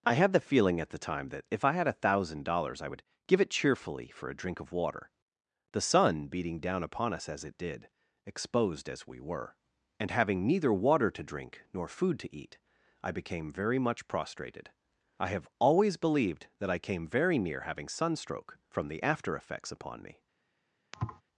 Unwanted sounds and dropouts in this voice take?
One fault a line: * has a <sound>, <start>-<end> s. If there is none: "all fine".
* has a thud, 20.9-21.2 s